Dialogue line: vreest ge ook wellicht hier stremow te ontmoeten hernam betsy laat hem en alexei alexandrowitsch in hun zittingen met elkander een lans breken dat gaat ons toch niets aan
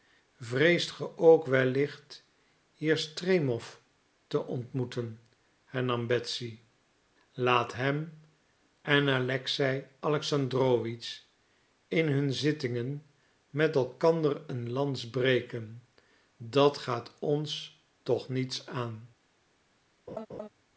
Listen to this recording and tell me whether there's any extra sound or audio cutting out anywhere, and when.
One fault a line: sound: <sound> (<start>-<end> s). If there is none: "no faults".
sound: laugh (20.1-20.5 s)